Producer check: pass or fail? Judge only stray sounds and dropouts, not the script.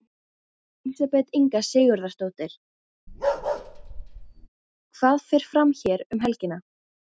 fail